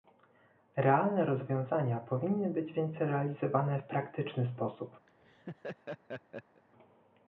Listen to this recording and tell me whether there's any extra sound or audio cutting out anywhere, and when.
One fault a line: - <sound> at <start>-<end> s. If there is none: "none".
- laugh at 5.1-6.6 s